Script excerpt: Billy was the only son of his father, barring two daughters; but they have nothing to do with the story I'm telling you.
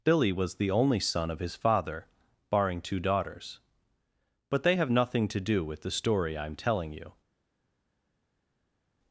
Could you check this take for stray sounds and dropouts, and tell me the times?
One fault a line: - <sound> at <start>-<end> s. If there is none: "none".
none